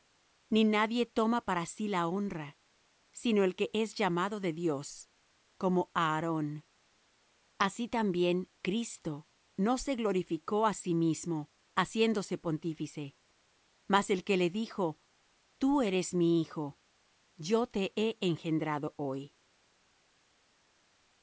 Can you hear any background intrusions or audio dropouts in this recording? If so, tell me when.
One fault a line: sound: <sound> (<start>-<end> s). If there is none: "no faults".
no faults